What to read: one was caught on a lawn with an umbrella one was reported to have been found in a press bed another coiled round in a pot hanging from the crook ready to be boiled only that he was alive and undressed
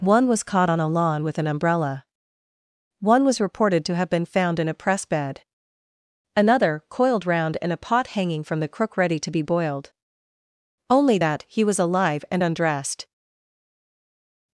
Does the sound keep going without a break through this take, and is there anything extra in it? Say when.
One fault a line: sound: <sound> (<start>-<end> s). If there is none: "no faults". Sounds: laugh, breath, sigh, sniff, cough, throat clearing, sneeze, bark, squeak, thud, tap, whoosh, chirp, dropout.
no faults